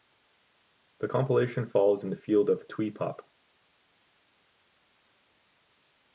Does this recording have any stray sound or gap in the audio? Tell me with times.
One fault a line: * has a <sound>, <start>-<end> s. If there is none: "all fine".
all fine